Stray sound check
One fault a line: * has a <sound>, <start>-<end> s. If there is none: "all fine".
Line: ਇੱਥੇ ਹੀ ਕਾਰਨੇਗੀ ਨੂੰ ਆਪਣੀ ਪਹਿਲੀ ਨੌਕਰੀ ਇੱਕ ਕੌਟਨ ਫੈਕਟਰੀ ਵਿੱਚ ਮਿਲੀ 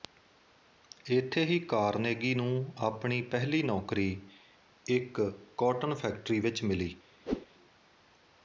* has a whoosh, 7.3-7.5 s